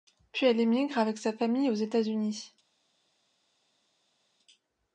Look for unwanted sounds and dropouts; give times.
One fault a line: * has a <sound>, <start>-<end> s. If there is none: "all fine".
all fine